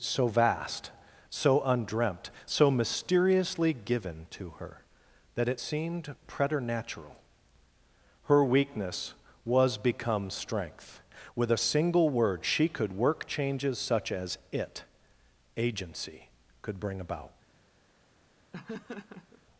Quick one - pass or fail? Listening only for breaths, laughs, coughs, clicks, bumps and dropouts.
fail